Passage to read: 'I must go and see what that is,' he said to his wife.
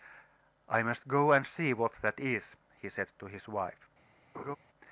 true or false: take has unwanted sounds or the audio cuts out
true